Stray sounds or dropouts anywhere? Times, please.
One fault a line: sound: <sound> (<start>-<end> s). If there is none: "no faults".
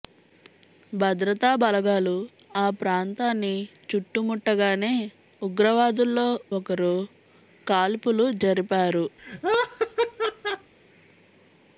sound: laugh (9.2-10.7 s)